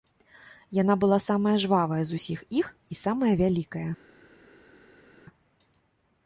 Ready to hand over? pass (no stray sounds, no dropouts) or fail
pass